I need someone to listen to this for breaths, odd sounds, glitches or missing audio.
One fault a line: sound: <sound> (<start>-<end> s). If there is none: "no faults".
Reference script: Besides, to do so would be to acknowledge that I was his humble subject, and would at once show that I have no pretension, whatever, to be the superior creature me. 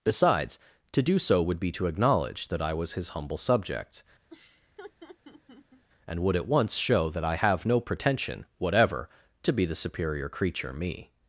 sound: laugh (4.3-5.9 s)